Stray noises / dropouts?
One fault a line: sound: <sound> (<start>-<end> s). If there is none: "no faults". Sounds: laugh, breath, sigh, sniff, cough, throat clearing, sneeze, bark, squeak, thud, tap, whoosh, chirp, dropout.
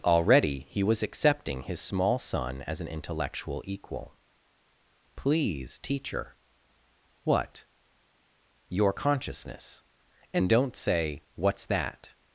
no faults